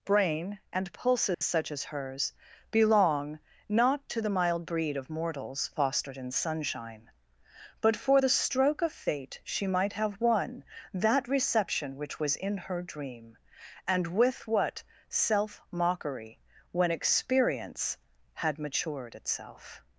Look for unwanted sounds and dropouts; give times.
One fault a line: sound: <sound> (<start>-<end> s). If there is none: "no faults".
sound: dropout (1.3-1.4 s)